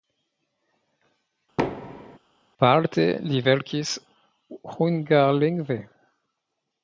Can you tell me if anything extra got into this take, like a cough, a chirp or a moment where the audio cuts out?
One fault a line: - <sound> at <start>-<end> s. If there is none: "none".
- thud at 1.6-2.2 s